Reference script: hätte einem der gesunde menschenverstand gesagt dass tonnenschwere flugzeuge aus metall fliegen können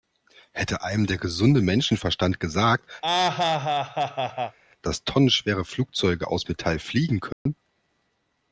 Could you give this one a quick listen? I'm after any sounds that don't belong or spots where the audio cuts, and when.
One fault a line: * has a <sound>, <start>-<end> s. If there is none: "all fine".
* has a laugh, 3.0-4.6 s
* has a dropout, 7.3-7.5 s